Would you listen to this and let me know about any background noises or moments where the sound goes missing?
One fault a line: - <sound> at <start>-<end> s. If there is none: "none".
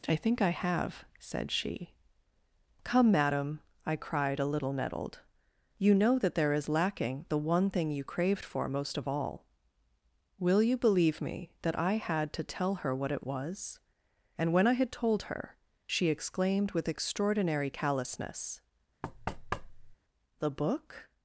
- thud at 19.0-20.0 s